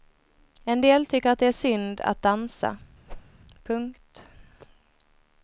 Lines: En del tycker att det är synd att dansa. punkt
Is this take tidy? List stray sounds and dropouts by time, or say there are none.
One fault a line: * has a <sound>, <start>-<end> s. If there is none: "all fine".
* has a whoosh, 3.1-3.3 s